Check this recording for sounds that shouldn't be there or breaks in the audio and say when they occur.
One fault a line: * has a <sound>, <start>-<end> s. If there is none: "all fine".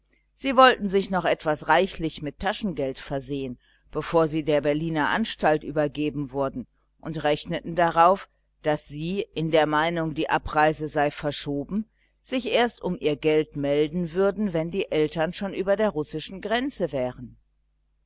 all fine